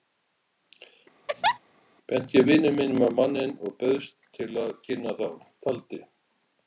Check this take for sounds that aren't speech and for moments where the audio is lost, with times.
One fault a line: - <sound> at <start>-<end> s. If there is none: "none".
- laugh at 1.3-1.6 s